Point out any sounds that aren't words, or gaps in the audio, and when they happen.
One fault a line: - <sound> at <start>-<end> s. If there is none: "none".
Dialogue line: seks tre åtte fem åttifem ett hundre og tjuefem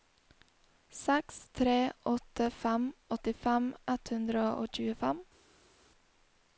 none